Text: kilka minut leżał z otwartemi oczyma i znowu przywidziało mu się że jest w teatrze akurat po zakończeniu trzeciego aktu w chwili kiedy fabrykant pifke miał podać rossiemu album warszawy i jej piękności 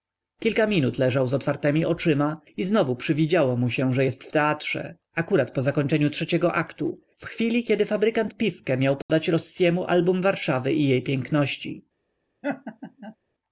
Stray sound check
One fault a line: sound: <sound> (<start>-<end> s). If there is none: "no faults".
sound: dropout (9.0-9.1 s)
sound: laugh (12.4-13.2 s)